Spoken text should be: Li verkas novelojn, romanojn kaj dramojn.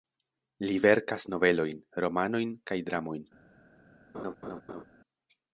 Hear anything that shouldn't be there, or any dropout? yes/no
yes